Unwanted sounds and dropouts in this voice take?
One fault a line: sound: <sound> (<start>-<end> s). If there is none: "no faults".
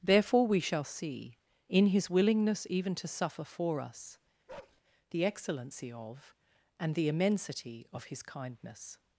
sound: bark (4.5-4.8 s)